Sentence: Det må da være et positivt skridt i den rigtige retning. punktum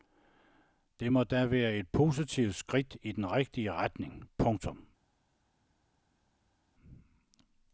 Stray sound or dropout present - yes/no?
no